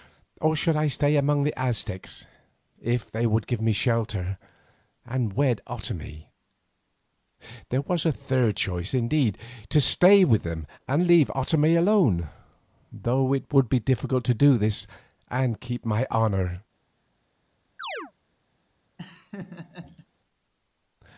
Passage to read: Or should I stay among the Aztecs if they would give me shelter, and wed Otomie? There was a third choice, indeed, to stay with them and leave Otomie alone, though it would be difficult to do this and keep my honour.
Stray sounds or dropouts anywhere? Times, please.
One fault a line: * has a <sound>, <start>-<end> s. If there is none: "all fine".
* has a chirp, 17.8-18.1 s
* has a laugh, 19.0-20.1 s